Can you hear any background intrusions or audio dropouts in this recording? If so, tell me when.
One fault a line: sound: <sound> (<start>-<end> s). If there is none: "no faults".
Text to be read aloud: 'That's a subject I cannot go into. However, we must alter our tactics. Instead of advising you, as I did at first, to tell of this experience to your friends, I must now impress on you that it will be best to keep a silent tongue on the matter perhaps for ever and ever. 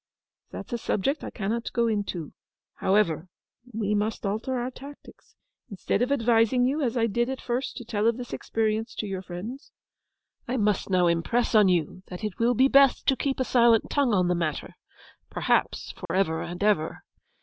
sound: dropout (16.1-16.1 s)